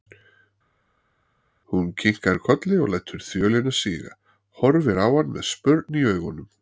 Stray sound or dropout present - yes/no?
no